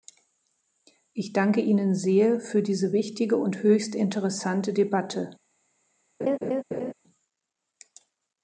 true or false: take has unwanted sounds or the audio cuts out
true